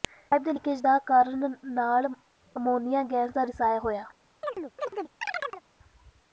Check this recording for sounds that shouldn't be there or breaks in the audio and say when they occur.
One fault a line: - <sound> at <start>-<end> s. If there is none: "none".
- chirp at 4.4-5.6 s